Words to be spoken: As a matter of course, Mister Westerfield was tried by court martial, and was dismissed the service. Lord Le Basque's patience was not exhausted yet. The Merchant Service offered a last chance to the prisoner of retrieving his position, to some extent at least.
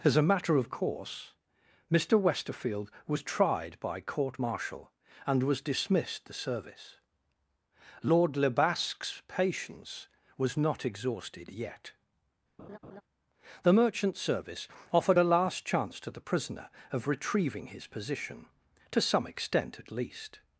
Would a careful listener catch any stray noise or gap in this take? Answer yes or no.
yes